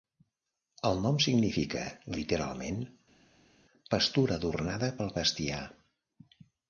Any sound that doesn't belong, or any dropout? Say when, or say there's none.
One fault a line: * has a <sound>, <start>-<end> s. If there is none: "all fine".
all fine